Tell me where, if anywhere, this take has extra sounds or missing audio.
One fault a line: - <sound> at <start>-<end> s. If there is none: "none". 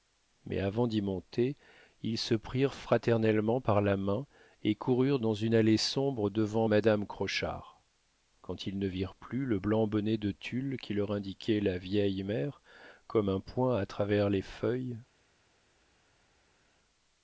none